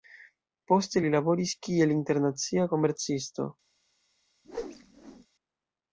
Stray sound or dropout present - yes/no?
yes